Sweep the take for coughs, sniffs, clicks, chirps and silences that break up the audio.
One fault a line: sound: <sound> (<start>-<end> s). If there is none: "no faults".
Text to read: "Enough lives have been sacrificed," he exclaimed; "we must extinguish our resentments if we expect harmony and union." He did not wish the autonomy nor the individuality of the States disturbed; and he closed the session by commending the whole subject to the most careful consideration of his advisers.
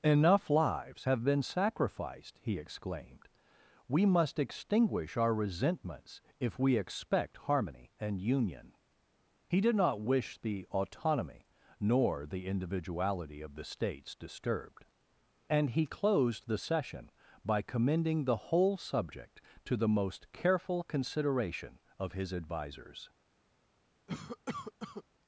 sound: cough (24.1-25.0 s)